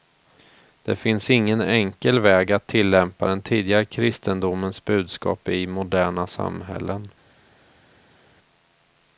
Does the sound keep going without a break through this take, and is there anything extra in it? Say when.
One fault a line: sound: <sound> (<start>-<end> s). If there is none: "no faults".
no faults